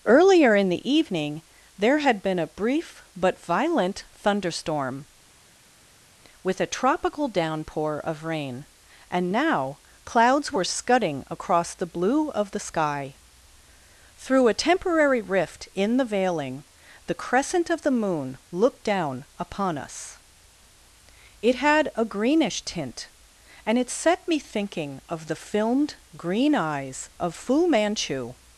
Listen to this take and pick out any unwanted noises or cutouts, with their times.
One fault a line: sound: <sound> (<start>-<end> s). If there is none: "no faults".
no faults